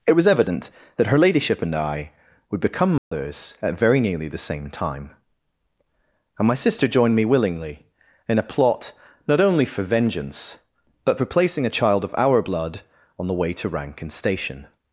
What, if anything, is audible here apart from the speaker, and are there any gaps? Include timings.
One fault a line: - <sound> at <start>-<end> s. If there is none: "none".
- dropout at 3.0-3.1 s